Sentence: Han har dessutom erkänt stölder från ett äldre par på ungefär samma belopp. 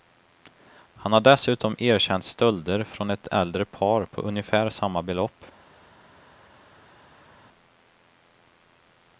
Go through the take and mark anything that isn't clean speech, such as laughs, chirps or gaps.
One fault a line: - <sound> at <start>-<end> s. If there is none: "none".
none